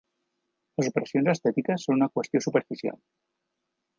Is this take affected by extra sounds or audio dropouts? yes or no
no